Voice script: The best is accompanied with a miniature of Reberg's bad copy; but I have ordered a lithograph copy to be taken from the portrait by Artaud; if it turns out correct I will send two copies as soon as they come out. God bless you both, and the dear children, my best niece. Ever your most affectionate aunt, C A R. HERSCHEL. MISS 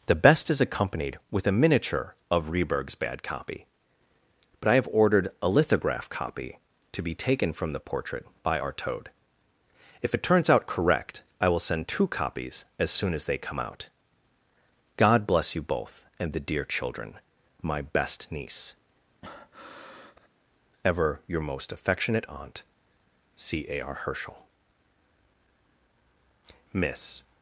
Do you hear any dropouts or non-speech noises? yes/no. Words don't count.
yes